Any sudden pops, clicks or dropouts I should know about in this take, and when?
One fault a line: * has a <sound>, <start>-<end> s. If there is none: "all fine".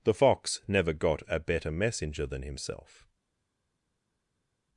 all fine